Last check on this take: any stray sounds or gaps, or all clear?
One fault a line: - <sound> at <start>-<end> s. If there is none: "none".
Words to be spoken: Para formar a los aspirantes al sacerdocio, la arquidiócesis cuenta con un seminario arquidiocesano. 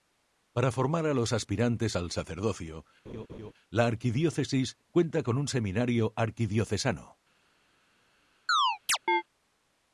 - laugh at 3.1-3.5 s
- chirp at 8.5-9.2 s